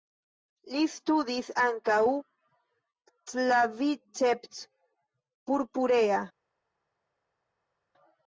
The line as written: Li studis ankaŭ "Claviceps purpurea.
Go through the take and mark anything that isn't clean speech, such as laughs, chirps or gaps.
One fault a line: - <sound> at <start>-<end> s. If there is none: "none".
none